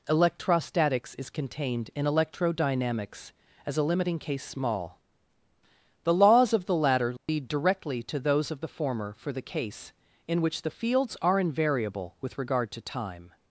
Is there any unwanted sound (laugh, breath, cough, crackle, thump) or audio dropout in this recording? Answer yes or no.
yes